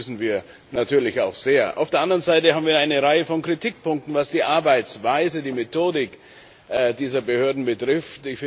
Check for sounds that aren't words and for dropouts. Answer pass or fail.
pass